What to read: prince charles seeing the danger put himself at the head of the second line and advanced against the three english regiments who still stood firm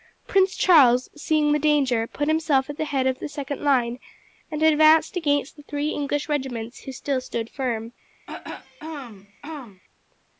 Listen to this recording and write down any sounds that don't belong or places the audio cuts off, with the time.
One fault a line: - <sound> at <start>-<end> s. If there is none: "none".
- throat clearing at 8.3-9.8 s